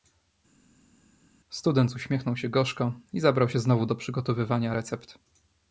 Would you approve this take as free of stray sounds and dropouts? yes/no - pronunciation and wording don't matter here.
yes